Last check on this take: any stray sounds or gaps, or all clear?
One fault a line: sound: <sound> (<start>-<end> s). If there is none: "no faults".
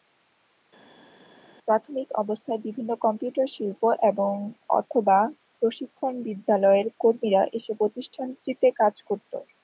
no faults